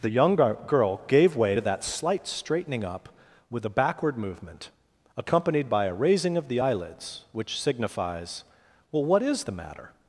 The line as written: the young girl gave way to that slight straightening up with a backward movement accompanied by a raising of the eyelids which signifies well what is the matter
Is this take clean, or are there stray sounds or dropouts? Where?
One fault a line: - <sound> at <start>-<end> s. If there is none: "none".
none